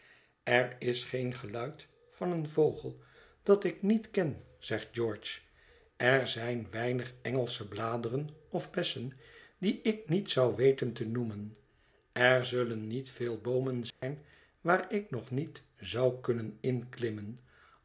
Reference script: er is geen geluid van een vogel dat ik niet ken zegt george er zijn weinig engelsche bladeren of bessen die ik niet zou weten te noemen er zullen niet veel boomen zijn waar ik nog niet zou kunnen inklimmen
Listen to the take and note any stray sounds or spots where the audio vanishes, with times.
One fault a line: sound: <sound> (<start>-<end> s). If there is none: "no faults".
sound: dropout (13.9-14.0 s)